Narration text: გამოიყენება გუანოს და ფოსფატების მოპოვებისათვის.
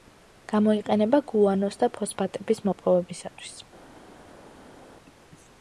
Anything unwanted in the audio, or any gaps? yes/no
no